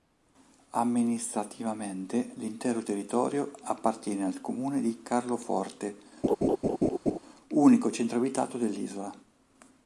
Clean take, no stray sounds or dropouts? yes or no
no